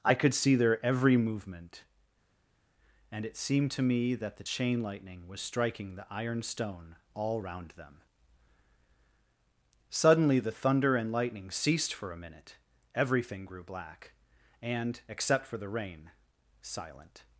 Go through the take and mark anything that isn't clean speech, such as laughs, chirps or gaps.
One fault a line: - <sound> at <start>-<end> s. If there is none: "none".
none